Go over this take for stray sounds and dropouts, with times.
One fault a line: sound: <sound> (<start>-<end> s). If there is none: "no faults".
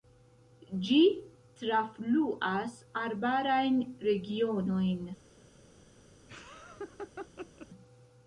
sound: laugh (6.3-7.7 s)